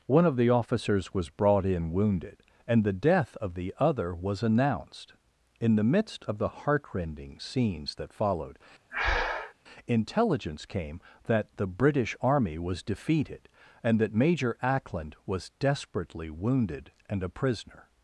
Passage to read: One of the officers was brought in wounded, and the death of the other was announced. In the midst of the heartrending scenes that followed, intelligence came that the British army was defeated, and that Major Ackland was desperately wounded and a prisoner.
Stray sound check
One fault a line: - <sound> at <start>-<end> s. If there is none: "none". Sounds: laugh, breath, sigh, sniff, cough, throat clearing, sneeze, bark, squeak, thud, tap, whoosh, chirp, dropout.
- breath at 8.9-9.5 s